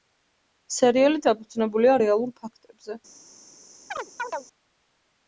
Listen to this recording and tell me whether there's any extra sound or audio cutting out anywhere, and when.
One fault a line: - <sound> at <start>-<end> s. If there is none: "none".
- chirp at 3.9-4.5 s